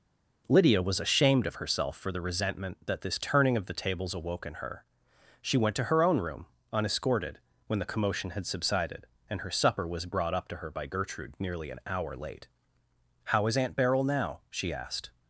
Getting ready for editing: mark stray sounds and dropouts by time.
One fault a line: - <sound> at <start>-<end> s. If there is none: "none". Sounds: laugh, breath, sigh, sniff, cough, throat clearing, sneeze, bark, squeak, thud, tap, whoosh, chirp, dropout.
none